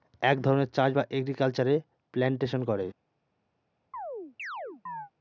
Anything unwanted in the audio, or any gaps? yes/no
yes